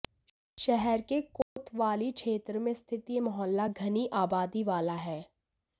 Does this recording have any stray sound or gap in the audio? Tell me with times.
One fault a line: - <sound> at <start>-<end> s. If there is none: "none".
- dropout at 1.4-1.6 s